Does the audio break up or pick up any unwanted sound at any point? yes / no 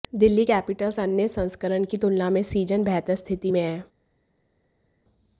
no